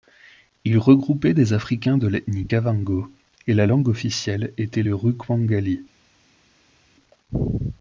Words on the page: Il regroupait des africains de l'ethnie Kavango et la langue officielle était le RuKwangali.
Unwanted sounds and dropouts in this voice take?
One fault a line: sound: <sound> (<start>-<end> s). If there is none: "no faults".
no faults